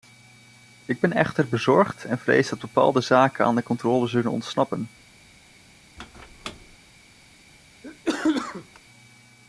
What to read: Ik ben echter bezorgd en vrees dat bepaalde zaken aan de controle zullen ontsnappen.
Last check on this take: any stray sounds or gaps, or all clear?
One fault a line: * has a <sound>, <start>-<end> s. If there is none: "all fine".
* has a squeak, 6.0-6.8 s
* has a cough, 7.8-8.8 s